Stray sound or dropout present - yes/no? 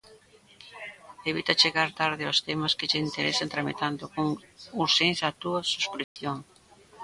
yes